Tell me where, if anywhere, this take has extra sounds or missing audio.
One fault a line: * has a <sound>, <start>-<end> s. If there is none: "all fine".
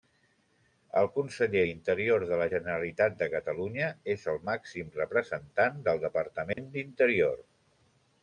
* has a dropout, 6.5-6.6 s